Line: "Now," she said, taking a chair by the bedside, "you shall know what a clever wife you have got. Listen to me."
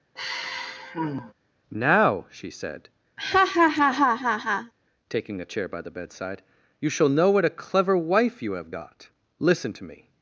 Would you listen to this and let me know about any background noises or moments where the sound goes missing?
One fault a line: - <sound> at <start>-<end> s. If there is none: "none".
- sigh at 0.2-1.3 s
- laugh at 3.2-4.7 s